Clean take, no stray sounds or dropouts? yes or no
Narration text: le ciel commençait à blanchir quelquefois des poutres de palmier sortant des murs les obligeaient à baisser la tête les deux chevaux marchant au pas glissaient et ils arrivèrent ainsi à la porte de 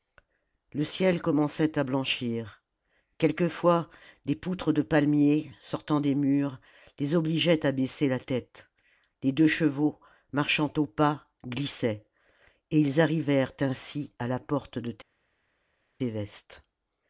yes